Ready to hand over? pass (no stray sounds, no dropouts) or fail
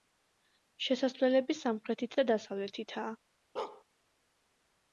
fail